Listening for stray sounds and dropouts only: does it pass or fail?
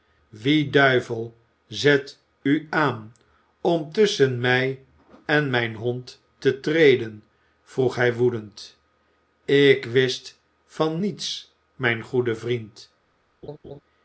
fail